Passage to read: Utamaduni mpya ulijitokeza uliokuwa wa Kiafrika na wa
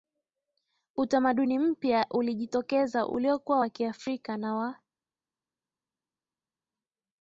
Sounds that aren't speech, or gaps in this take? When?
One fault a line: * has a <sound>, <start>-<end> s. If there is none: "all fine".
all fine